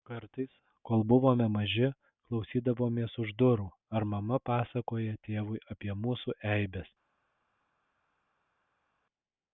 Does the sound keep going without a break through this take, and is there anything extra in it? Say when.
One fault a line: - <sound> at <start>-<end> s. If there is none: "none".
none